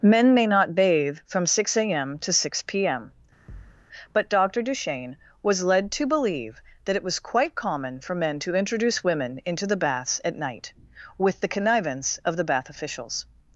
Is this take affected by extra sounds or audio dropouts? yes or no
yes